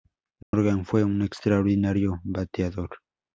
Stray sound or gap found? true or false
true